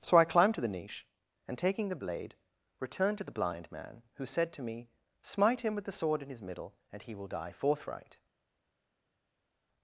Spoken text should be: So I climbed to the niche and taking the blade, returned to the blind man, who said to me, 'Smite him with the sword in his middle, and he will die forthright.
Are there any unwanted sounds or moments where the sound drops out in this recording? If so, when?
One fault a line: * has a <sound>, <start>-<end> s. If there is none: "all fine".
all fine